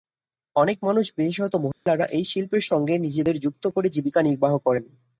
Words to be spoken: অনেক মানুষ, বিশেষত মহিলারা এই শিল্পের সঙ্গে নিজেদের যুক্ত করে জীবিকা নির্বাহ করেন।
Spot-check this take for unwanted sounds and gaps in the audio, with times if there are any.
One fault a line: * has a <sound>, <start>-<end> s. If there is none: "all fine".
* has a dropout, 1.7-1.9 s